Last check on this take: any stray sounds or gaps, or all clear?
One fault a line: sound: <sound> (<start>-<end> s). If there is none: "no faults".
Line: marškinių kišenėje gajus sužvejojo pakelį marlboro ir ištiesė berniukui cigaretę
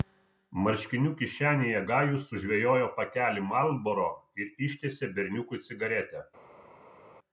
no faults